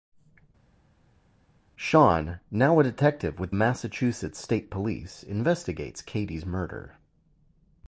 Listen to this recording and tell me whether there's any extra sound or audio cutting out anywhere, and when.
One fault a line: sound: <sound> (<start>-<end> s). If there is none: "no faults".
no faults